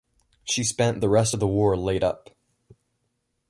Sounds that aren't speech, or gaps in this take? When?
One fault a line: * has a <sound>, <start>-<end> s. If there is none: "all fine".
all fine